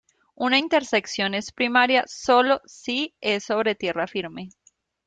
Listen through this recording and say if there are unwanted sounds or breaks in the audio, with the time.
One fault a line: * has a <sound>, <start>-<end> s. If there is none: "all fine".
all fine